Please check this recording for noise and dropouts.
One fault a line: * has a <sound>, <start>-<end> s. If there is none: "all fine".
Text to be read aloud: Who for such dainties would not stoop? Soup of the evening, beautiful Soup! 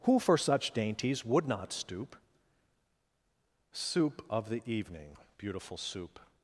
all fine